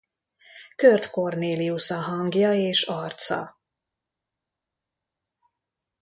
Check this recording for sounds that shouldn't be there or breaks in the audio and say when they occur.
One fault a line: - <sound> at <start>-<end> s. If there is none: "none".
none